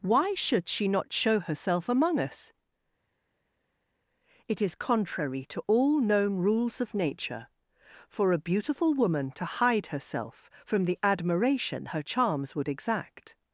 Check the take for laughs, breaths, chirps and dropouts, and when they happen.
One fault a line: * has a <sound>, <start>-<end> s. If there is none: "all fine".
all fine